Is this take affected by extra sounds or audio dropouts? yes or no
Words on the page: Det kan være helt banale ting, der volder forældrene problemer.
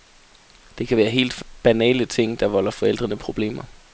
no